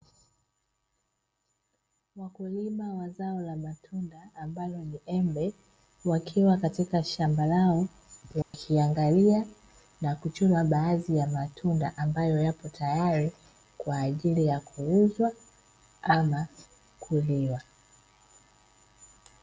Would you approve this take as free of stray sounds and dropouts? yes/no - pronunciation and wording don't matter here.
no